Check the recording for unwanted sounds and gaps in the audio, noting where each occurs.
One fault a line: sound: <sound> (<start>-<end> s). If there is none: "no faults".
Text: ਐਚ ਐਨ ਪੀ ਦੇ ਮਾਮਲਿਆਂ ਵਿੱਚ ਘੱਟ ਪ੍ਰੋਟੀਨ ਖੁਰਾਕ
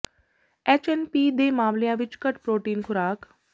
no faults